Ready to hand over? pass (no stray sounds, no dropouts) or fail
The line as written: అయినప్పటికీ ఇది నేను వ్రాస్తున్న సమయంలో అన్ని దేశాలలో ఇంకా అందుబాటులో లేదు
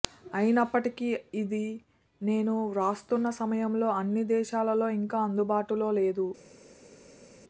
pass